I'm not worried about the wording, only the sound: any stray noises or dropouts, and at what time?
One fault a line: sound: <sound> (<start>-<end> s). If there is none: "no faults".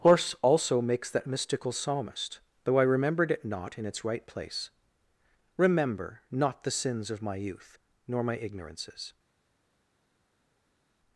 no faults